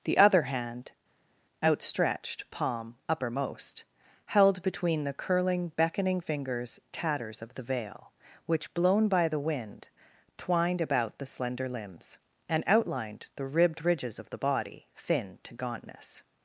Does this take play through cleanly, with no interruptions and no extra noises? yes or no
yes